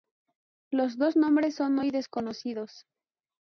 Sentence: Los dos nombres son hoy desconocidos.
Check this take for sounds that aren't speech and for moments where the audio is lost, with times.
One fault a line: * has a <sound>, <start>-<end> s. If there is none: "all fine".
all fine